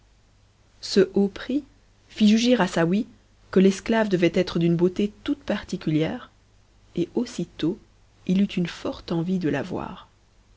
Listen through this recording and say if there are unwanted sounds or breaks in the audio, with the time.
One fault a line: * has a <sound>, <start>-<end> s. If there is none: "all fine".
all fine